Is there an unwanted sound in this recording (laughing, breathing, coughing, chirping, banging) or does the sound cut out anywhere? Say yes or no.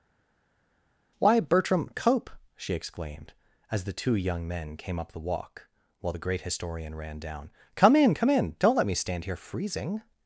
no